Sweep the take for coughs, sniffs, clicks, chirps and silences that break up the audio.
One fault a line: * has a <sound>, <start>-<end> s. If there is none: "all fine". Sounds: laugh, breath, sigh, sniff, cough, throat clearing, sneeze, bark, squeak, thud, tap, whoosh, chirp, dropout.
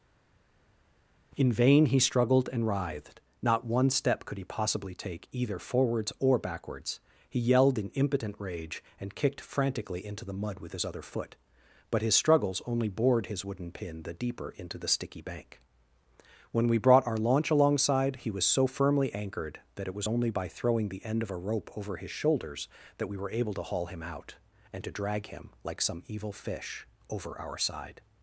all fine